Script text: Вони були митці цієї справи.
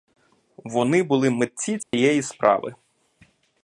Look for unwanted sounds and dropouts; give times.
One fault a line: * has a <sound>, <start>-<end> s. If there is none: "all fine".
* has a dropout, 1.8-1.9 s